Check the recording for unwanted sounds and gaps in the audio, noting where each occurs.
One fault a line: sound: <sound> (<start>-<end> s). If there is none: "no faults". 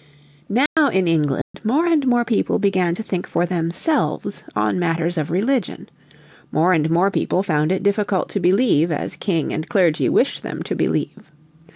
sound: dropout (0.7-0.8 s)
sound: dropout (1.4-1.5 s)